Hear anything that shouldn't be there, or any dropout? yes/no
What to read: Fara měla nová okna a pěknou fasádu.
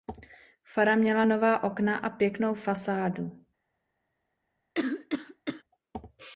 yes